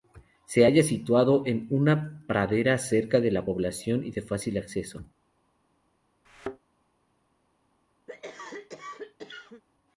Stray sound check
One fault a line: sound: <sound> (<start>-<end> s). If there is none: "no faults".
sound: thud (6.3-6.6 s)
sound: cough (8.1-9.6 s)